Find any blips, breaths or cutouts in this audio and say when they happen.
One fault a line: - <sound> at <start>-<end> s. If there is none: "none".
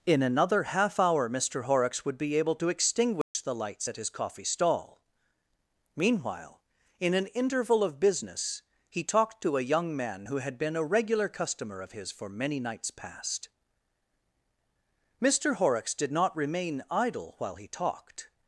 - dropout at 3.2-3.3 s